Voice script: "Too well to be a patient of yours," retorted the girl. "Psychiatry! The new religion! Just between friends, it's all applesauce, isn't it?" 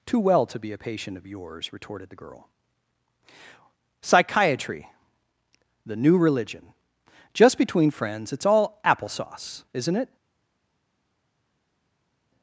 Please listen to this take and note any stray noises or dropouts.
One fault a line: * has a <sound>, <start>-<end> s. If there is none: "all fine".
all fine